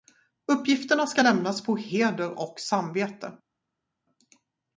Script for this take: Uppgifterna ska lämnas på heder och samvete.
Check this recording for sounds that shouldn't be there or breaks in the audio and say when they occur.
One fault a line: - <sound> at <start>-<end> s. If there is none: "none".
none